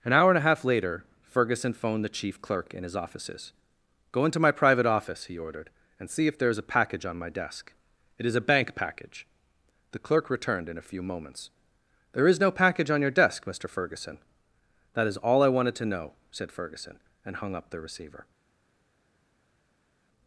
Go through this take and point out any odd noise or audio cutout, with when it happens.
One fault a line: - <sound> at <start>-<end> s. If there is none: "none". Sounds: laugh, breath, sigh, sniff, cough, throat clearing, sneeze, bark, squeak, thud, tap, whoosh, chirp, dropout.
none